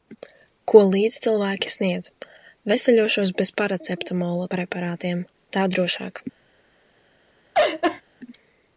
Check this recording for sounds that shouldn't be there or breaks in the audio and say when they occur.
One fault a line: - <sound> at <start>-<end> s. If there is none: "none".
- laugh at 7.5-8.0 s